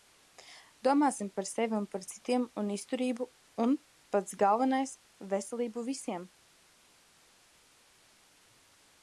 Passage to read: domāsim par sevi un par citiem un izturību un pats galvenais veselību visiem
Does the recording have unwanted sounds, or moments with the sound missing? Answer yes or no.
no